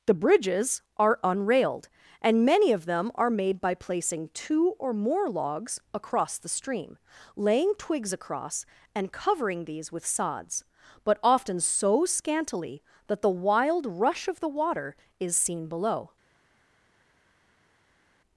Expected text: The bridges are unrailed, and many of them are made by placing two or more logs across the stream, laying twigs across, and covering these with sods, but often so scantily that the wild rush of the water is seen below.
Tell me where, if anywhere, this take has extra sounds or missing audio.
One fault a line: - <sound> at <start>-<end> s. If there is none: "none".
none